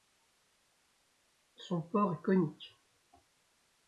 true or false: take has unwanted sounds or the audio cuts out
false